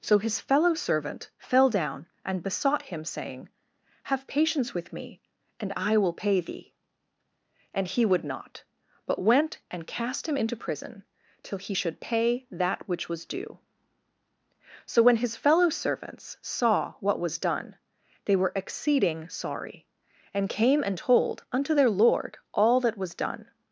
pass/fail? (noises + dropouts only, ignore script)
pass